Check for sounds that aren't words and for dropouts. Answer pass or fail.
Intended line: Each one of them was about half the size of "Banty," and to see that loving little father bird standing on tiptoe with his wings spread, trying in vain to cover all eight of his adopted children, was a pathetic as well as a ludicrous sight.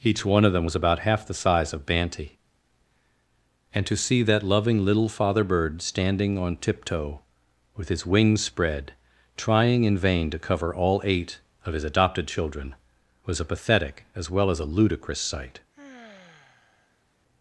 fail